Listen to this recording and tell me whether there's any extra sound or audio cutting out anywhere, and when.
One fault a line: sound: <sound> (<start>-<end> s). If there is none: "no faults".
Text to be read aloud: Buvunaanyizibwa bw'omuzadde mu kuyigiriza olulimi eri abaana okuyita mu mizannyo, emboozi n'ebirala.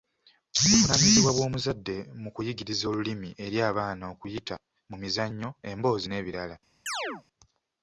sound: chirp (6.9-7.2 s)